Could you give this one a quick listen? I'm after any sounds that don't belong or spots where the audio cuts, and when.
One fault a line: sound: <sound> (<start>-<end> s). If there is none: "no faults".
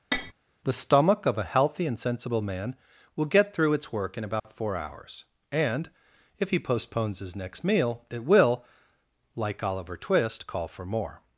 sound: tap (0.1-0.3 s)
sound: dropout (4.4-4.4 s)